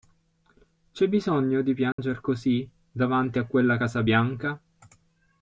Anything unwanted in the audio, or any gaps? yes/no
yes